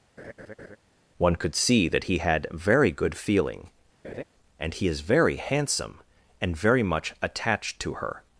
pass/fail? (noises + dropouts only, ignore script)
fail